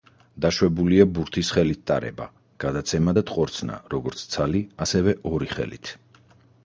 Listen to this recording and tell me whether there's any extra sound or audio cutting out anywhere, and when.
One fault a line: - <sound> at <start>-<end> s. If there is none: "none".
none